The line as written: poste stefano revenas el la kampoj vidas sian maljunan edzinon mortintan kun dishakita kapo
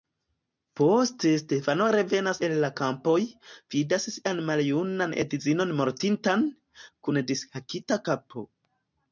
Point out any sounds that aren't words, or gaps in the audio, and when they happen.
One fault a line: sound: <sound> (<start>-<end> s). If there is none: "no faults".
no faults